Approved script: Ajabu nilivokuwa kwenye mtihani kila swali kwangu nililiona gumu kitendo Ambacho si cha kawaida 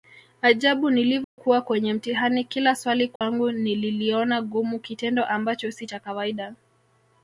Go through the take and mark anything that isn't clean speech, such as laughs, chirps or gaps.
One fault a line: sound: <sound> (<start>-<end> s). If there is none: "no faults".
sound: dropout (1.2-1.4 s)
sound: dropout (3.2-3.2 s)